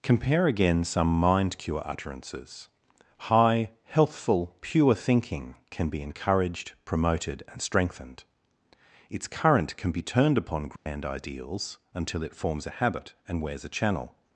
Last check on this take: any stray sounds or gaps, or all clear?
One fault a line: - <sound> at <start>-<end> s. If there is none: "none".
- dropout at 10.8-10.9 s